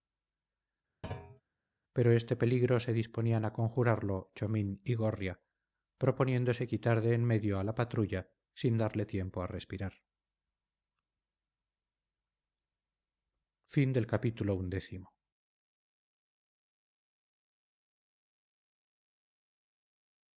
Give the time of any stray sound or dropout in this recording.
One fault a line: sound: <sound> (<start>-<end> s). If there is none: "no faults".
sound: thud (1.0-1.4 s)